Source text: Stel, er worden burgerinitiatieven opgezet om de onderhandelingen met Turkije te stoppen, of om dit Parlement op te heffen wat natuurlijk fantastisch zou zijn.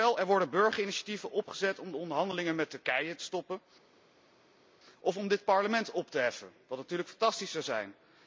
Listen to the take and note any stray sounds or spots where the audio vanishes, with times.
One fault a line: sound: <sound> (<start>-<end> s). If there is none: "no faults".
no faults